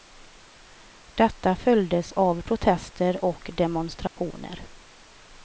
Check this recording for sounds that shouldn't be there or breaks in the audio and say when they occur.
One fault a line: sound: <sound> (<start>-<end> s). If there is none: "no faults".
sound: dropout (4.1-4.2 s)